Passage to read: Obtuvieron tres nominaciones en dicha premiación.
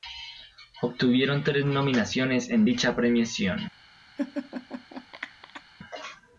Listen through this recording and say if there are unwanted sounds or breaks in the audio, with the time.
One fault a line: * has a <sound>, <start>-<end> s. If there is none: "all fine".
* has a laugh, 4.2-5.6 s